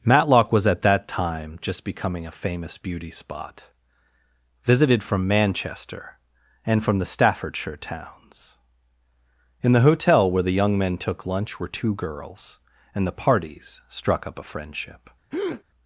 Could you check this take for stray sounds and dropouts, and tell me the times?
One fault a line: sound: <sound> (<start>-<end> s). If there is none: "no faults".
sound: breath (15.3-15.6 s)